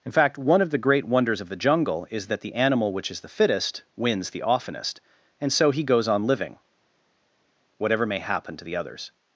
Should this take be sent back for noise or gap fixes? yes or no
no